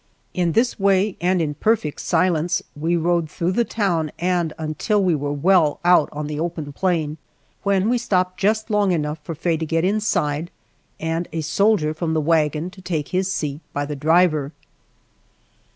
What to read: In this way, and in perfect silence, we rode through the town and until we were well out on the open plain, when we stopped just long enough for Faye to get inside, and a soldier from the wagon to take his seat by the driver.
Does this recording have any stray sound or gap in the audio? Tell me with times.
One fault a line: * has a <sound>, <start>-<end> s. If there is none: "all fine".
all fine